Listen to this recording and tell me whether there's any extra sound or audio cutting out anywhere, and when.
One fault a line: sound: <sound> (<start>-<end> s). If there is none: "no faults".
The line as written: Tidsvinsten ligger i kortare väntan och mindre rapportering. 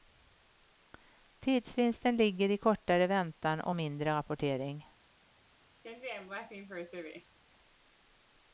sound: laugh (5.8-7.4 s)